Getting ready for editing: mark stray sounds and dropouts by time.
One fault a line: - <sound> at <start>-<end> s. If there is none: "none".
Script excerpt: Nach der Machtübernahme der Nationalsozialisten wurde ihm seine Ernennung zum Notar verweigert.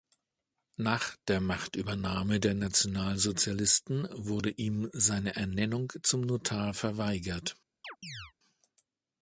- chirp at 7.8-8.3 s